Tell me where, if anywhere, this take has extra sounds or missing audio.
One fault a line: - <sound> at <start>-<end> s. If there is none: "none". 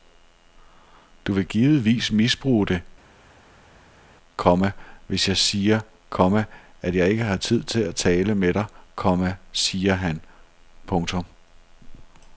none